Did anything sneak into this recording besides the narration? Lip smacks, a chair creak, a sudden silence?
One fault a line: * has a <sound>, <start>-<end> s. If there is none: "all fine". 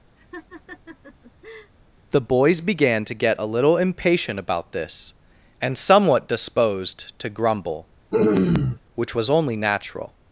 * has a laugh, 0.2-1.7 s
* has a throat clearing, 8.1-8.8 s